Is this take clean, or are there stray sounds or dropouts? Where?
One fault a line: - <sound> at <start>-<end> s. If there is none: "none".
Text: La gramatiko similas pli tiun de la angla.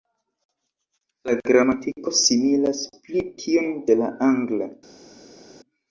none